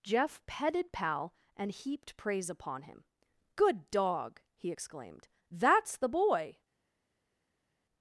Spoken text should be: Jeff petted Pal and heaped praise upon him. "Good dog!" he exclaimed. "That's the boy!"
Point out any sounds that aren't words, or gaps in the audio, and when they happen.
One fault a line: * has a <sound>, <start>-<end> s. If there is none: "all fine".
all fine